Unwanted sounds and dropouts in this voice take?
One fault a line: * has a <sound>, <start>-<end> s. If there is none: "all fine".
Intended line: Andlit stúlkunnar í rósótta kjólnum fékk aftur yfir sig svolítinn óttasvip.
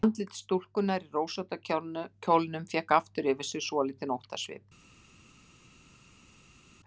all fine